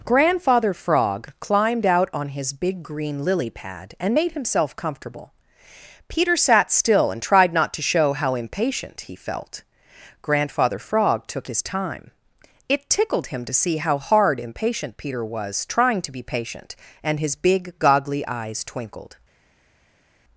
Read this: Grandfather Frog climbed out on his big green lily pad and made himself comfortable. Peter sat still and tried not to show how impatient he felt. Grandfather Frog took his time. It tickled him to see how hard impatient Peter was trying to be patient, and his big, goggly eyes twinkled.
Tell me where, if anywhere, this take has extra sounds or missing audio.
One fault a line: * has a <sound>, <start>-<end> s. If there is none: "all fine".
all fine